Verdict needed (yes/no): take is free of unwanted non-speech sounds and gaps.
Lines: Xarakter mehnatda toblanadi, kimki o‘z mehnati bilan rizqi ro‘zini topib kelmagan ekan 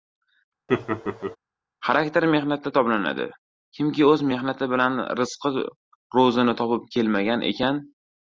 no